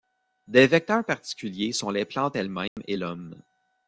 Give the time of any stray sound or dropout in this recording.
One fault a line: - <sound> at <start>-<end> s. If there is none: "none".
- dropout at 2.7-2.8 s